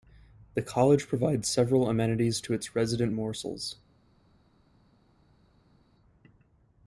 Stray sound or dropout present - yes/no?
no